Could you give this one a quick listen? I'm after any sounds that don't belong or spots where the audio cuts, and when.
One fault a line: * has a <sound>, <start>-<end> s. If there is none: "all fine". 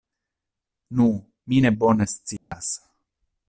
* has a dropout, 2.4-2.5 s